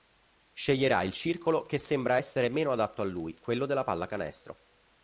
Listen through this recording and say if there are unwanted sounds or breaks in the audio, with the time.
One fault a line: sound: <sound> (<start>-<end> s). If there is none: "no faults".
no faults